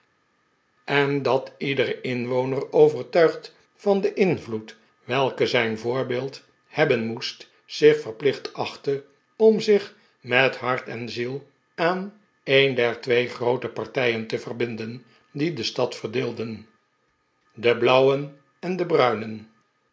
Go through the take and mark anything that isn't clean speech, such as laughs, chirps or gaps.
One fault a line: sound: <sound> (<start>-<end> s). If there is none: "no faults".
no faults